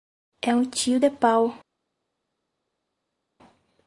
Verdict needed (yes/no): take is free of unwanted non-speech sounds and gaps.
yes